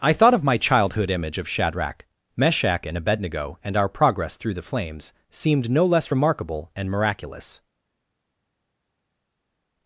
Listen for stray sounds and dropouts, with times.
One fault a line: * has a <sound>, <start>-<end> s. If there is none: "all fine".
all fine